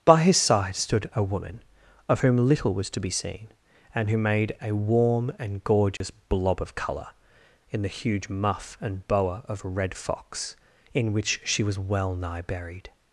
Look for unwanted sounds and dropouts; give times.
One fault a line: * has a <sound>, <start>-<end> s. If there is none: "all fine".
* has a dropout, 6.0-6.0 s